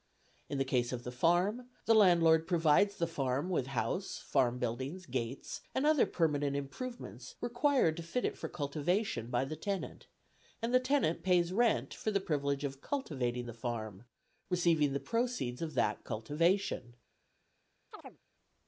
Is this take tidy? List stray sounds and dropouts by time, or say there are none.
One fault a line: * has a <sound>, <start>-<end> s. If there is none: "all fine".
* has a chirp, 17.9-18.2 s